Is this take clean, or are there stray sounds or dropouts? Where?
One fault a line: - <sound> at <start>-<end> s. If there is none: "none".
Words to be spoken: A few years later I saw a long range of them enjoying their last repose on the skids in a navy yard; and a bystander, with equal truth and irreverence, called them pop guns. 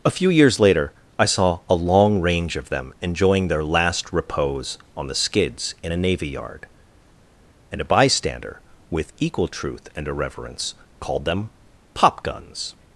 none